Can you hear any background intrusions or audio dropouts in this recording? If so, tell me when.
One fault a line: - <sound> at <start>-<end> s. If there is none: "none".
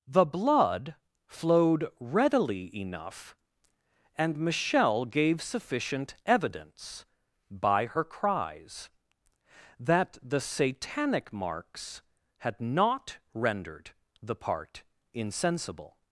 none